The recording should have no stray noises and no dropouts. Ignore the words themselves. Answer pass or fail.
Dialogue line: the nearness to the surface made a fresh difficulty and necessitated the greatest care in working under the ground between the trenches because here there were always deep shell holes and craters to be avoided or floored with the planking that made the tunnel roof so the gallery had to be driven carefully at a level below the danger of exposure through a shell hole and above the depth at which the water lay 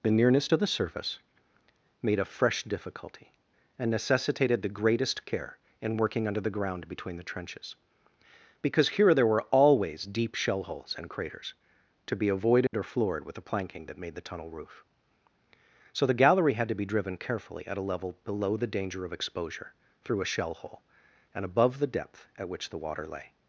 fail